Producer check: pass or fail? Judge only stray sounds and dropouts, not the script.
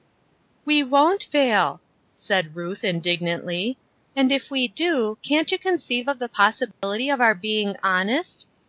fail